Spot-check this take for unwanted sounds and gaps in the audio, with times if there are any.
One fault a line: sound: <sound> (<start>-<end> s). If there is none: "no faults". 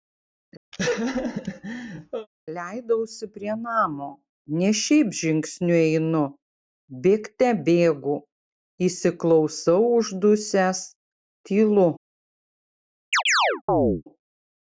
sound: laugh (0.7-2.3 s)
sound: chirp (13.1-14.0 s)